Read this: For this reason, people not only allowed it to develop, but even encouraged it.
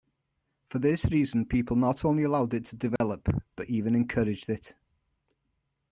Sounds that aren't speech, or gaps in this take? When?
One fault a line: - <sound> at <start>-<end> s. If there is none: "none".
- dropout at 3.0-3.0 s